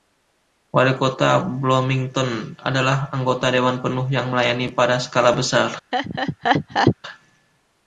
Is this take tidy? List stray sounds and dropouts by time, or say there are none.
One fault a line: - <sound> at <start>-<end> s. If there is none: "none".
- laugh at 5.9-7.0 s